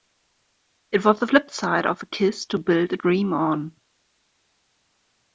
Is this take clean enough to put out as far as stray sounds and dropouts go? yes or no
yes